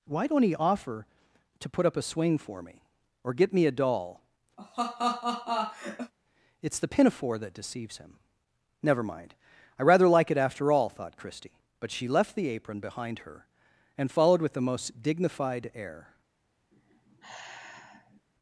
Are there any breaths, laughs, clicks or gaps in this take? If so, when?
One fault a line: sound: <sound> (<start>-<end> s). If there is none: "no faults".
sound: laugh (4.6-6.1 s)
sound: sigh (16.7-18.2 s)